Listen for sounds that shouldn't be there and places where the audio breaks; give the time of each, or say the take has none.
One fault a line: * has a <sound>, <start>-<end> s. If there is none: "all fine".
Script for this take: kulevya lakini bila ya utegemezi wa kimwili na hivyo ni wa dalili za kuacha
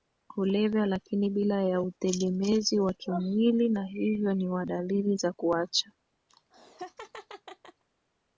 * has a laugh, 6.3-7.8 s